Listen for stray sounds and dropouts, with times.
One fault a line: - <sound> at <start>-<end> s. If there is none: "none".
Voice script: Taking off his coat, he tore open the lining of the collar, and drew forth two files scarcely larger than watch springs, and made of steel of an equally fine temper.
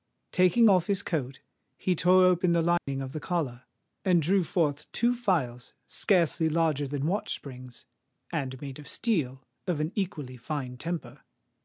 - dropout at 2.8-2.9 s